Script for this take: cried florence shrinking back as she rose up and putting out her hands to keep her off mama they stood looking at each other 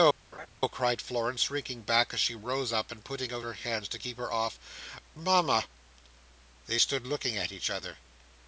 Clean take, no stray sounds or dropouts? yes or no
no